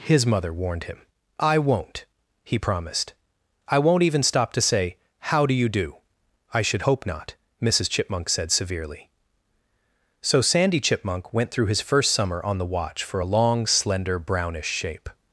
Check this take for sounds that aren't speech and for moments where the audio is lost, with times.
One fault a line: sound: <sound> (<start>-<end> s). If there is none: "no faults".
no faults